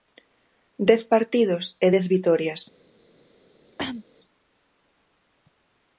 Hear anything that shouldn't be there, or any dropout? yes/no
yes